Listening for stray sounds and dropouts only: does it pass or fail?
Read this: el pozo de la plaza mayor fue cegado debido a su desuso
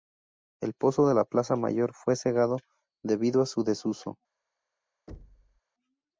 fail